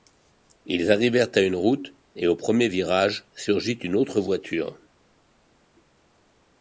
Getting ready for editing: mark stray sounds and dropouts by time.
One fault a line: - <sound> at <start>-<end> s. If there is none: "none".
none